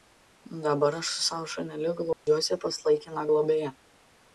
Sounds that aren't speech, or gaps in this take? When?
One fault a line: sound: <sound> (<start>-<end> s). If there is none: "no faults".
sound: dropout (2.1-2.3 s)